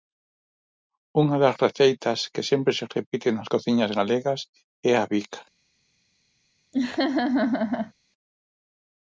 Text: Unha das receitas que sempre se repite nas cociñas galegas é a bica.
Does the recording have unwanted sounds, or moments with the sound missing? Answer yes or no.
yes